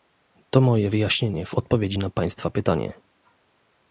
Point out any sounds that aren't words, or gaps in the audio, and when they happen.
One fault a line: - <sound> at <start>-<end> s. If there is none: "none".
none